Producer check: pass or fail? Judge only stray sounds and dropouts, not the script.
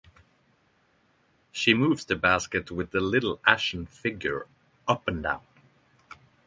pass